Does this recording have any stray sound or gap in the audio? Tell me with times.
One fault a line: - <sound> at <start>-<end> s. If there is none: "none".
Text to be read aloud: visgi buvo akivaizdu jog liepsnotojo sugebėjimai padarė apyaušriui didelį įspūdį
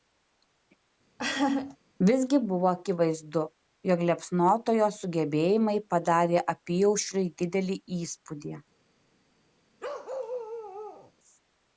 - laugh at 1.2-1.8 s
- bark at 9.8-11.1 s